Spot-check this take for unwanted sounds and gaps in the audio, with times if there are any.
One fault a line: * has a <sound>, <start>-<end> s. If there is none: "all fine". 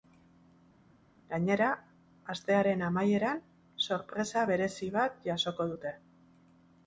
all fine